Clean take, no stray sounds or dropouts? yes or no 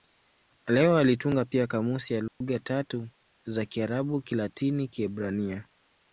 no